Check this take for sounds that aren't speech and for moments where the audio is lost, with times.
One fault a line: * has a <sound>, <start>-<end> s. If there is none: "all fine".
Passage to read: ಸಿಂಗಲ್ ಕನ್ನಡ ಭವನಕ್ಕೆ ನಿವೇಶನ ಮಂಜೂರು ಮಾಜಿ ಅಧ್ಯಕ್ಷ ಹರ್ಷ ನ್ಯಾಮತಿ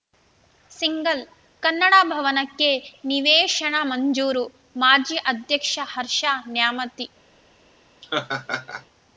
* has a laugh, 8.0-8.9 s